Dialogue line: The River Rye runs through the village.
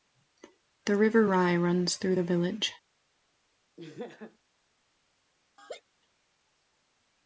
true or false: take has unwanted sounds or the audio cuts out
true